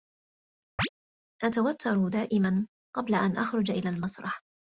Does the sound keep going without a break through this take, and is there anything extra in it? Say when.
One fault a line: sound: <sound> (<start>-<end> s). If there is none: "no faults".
sound: chirp (0.8-0.9 s)